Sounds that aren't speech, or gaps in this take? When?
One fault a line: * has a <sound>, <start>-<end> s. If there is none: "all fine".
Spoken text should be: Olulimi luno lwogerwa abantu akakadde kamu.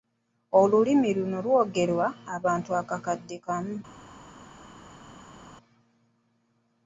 all fine